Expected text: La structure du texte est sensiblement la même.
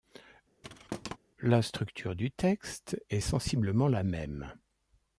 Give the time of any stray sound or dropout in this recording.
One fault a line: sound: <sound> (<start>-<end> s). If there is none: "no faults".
sound: thud (0.6-1.2 s)